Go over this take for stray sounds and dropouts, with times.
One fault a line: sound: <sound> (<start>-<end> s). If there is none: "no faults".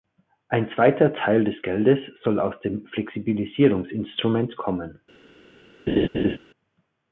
sound: laugh (5.9-6.4 s)